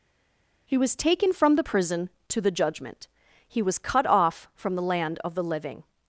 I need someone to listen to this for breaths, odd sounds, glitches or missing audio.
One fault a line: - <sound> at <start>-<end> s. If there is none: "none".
none